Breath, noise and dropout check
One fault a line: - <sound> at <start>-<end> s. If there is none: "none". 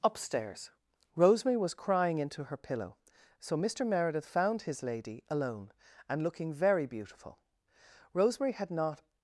none